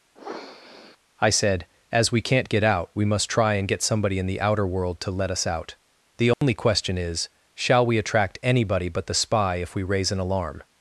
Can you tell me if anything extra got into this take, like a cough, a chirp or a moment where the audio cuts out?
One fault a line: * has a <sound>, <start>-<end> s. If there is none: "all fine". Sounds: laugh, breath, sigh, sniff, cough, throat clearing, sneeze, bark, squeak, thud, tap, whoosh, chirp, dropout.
* has a sniff, 0.1-1.0 s
* has a dropout, 6.3-6.4 s